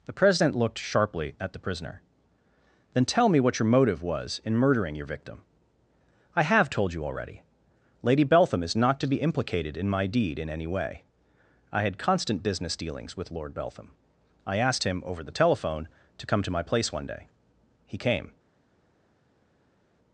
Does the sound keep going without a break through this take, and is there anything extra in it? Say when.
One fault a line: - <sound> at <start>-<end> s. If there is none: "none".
none